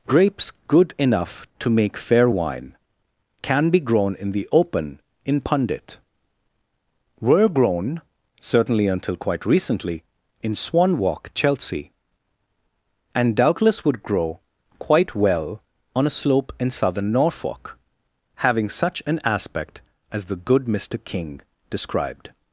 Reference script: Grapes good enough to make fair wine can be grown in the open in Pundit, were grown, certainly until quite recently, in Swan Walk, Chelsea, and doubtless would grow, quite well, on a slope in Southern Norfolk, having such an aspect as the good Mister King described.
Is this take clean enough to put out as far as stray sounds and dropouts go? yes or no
yes